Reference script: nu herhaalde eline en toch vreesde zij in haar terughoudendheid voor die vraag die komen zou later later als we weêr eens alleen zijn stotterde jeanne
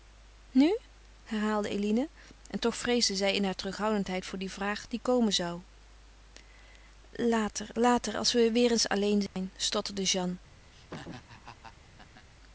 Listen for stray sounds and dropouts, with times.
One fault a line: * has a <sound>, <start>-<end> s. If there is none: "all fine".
* has a dropout, 9.3-9.4 s
* has a laugh, 10.7-12.3 s